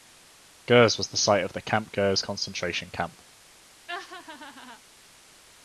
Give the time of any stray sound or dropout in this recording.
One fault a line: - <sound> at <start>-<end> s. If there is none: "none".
- laugh at 3.9-4.8 s